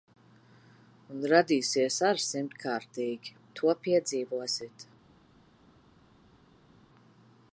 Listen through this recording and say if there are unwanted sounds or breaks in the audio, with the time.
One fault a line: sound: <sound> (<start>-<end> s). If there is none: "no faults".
no faults